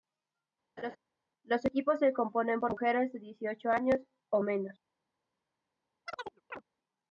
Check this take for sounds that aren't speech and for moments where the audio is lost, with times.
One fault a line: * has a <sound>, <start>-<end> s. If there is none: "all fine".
* has a laugh, 0.8-1.0 s
* has a chirp, 6.1-6.6 s